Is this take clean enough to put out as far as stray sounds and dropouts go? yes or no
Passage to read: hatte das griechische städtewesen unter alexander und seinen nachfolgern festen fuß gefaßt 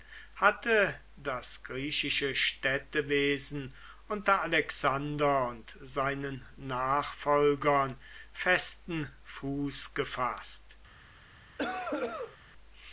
no